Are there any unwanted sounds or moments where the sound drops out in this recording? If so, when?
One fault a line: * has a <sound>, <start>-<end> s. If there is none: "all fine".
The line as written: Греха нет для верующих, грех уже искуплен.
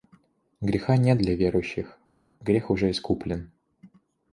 all fine